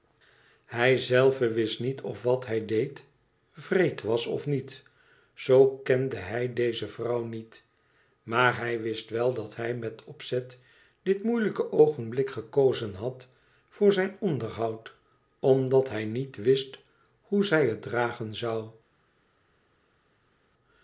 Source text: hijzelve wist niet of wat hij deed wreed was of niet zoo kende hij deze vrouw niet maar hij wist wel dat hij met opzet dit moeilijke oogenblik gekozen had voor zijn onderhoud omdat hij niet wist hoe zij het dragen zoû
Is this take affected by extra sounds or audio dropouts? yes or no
no